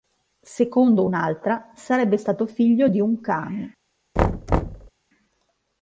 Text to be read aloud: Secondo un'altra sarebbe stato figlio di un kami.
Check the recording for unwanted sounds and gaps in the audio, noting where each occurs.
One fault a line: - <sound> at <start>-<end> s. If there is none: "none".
- thud at 4.2-4.9 s